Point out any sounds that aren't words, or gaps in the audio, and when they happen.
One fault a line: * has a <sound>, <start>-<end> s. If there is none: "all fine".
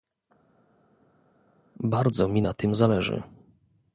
all fine